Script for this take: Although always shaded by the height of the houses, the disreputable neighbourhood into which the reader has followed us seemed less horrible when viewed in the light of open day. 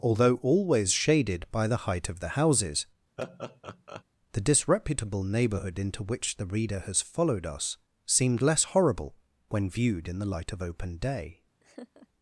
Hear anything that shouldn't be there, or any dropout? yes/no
yes